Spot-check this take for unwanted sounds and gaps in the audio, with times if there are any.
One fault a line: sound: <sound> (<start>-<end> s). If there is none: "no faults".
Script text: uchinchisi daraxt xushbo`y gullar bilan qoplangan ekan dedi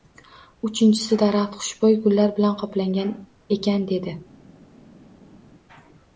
no faults